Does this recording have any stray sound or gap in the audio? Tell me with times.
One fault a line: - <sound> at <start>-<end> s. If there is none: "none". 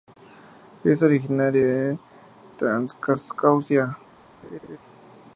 - laugh at 4.4-4.8 s